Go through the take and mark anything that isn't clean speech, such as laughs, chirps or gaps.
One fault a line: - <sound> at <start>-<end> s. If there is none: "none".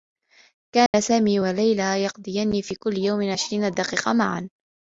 - dropout at 0.9-0.9 s